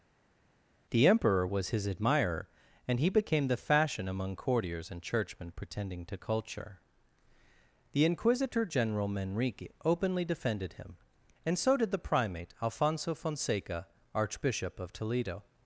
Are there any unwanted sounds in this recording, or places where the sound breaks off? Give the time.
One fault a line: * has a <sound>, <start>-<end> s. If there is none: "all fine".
all fine